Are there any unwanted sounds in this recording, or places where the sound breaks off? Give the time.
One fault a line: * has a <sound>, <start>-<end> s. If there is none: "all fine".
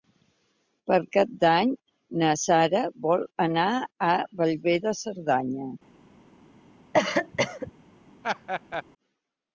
* has a cough, 6.9-7.7 s
* has a laugh, 8.2-8.8 s